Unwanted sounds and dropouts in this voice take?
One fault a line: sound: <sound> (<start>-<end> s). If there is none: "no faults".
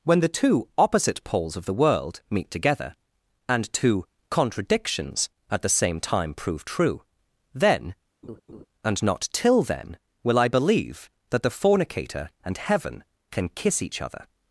sound: laugh (8.2-8.7 s)